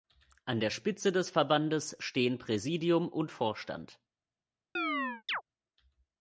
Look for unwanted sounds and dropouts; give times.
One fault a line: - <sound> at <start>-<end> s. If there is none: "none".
- chirp at 4.8-5.4 s